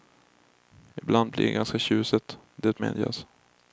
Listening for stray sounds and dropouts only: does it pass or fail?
pass